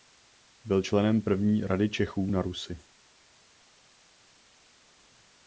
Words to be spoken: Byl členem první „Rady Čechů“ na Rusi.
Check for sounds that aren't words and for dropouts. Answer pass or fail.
pass